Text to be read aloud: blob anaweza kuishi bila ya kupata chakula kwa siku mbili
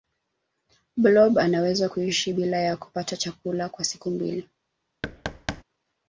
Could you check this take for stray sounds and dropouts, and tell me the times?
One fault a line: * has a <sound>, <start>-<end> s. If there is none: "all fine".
* has a thud, 5.0-5.6 s